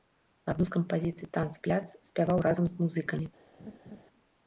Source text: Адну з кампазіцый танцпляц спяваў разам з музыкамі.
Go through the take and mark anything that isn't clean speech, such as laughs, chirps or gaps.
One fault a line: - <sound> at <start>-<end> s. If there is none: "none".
- laugh at 3.6-4.0 s